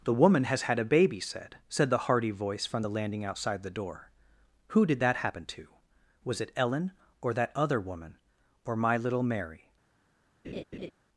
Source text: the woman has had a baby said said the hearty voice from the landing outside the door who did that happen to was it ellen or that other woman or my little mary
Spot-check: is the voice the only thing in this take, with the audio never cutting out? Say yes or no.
no